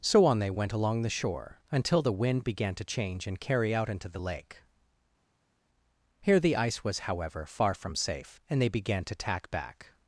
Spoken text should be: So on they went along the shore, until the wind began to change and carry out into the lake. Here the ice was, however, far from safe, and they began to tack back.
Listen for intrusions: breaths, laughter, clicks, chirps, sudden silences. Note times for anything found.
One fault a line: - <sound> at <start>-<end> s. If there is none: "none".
none